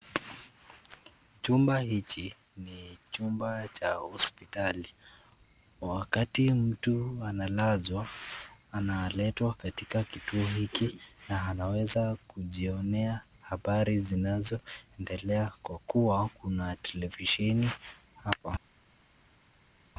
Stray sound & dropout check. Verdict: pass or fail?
pass